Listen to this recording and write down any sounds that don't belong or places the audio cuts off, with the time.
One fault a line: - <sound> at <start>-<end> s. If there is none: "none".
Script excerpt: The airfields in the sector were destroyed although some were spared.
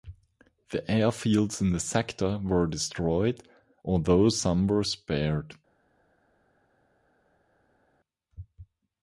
none